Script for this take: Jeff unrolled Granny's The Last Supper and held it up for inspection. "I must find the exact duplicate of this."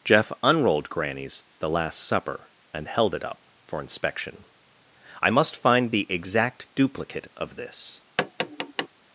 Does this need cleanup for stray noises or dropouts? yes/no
yes